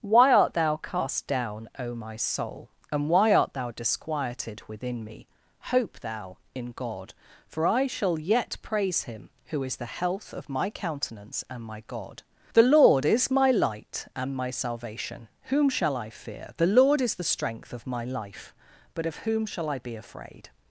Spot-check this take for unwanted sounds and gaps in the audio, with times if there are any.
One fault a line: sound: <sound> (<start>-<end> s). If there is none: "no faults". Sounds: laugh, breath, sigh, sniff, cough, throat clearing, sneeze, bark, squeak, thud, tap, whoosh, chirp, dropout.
no faults